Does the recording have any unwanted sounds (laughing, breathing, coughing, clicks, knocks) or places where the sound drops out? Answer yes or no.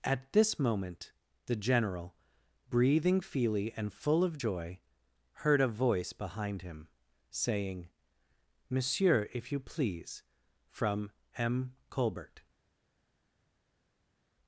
no